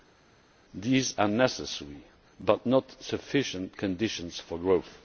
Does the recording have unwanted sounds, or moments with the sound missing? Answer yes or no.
no